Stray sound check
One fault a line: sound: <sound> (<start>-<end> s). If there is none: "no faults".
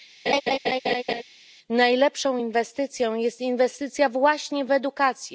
sound: laugh (0.3-1.2 s)